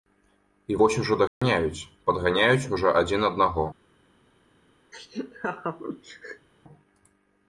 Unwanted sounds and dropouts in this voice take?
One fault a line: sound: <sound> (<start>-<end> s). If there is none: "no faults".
sound: dropout (1.3-1.4 s)
sound: laugh (4.9-6.5 s)